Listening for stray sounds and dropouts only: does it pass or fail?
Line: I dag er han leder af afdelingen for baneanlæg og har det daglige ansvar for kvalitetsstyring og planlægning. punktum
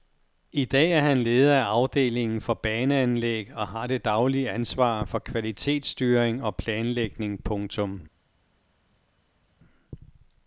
pass